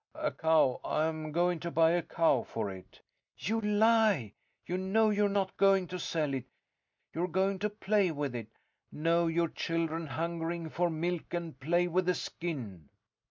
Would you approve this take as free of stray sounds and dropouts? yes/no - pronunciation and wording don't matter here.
yes